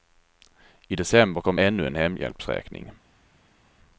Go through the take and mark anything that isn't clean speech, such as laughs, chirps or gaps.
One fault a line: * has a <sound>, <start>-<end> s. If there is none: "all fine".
all fine